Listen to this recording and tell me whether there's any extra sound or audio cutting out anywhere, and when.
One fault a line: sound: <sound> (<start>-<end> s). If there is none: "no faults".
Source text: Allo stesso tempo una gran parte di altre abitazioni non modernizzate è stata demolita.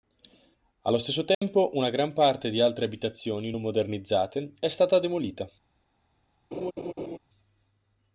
sound: dropout (1.3-1.4 s)
sound: laugh (6.5-7.2 s)